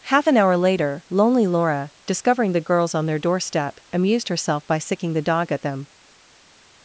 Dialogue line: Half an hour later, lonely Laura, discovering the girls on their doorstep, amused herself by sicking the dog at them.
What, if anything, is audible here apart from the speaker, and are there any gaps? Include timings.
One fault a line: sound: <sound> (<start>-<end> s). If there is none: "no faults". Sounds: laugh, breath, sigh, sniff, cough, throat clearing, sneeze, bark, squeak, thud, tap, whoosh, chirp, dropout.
no faults